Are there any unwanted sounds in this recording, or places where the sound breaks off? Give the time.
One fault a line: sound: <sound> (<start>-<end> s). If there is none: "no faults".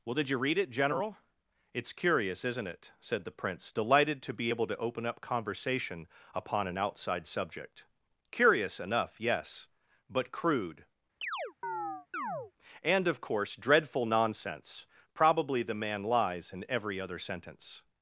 sound: chirp (11.2-12.5 s)